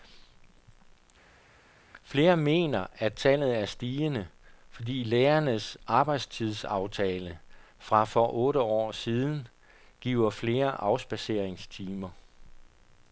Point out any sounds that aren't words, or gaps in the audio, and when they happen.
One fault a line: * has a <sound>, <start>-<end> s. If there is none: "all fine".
all fine